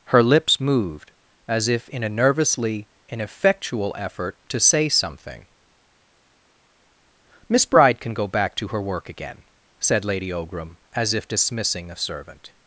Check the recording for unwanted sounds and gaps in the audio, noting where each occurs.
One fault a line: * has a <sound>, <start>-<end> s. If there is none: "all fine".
all fine